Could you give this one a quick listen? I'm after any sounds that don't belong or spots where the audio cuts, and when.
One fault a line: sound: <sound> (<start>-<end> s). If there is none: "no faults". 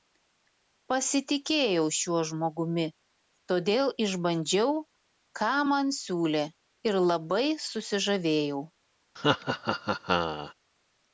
sound: laugh (9.2-10.5 s)